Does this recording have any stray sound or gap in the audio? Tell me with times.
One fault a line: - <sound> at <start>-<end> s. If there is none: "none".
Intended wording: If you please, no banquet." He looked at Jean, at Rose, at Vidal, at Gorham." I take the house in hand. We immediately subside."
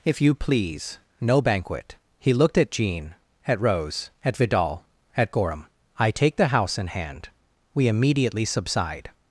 none